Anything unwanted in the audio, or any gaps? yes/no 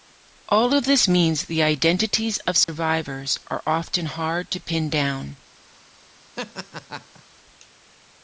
yes